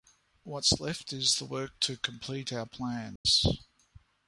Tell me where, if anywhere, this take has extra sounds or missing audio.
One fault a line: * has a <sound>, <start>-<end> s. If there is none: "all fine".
* has a dropout, 3.2-3.3 s